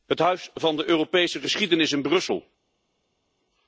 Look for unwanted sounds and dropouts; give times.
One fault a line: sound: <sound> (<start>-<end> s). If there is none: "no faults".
no faults